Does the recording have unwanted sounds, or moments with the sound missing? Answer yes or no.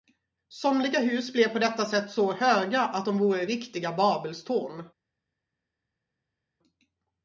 no